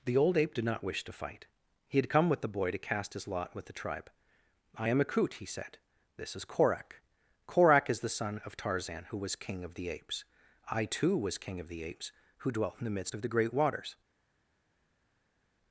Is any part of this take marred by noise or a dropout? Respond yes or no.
no